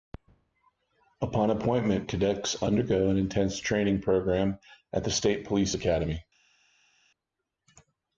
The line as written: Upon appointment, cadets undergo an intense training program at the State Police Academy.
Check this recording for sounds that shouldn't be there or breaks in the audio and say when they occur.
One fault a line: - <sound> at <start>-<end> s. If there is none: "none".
none